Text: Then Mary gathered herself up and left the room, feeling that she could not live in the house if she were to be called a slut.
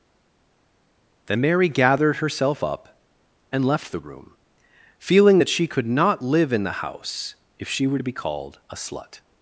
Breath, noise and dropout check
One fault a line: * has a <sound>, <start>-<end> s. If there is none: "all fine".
all fine